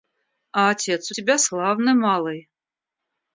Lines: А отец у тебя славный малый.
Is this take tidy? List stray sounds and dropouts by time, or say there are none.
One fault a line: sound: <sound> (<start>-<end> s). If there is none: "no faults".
no faults